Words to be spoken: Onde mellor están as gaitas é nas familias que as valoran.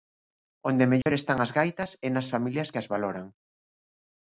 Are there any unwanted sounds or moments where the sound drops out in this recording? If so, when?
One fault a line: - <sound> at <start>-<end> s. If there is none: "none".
- dropout at 1.0-1.1 s